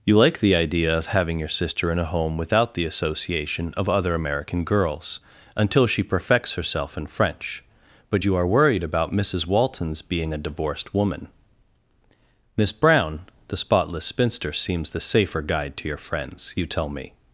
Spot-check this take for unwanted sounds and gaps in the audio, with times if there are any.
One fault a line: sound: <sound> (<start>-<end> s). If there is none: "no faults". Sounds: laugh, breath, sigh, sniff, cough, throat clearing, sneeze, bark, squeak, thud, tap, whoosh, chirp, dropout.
no faults